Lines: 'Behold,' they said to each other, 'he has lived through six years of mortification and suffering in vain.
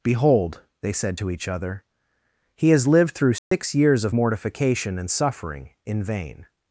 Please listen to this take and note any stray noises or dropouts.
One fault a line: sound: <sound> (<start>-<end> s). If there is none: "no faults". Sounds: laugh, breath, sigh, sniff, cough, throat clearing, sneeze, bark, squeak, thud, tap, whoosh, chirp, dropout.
sound: dropout (3.4-3.5 s)